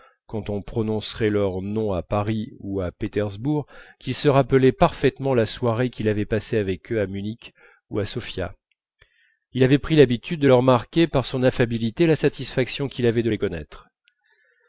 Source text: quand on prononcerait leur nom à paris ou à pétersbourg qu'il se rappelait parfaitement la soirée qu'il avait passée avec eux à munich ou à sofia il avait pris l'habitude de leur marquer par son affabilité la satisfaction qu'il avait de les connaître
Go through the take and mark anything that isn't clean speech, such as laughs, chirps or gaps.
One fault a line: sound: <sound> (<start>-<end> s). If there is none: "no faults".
no faults